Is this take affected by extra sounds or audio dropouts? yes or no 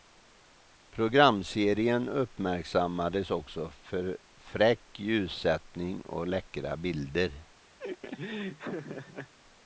yes